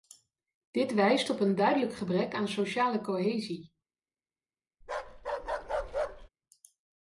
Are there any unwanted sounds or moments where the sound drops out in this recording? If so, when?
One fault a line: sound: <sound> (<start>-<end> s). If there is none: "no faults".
sound: bark (4.8-6.3 s)